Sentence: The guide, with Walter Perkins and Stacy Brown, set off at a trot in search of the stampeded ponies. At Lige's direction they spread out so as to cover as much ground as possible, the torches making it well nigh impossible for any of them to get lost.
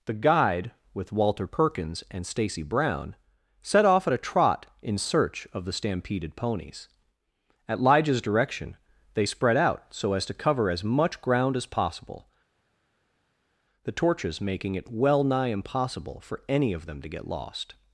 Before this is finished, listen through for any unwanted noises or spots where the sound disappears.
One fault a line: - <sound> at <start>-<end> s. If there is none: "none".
none